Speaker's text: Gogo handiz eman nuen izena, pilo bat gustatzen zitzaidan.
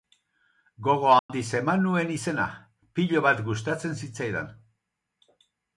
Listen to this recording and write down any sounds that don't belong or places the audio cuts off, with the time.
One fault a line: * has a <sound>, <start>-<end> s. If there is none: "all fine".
* has a dropout, 1.2-1.3 s